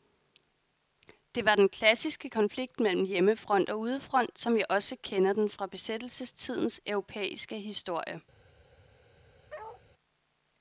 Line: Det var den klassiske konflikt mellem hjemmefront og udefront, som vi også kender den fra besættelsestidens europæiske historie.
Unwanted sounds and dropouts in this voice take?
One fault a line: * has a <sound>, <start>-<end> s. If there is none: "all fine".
* has a bark, 9.5-9.8 s